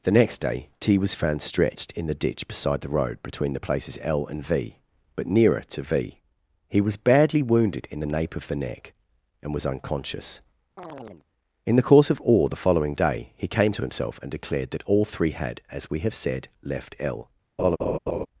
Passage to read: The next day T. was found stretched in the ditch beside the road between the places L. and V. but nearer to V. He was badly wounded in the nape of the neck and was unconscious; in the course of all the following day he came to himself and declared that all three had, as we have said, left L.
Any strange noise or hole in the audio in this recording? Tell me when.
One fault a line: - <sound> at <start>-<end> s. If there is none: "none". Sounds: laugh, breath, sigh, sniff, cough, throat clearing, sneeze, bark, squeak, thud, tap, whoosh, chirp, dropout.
- chirp at 10.8-11.3 s
- laugh at 17.6-18.3 s